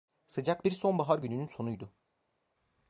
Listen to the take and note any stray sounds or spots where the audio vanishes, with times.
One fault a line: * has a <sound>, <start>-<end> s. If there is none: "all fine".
all fine